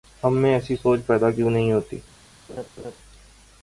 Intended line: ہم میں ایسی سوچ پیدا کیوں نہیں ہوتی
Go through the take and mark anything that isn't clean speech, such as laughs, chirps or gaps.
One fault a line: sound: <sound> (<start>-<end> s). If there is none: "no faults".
sound: laugh (2.5-3.0 s)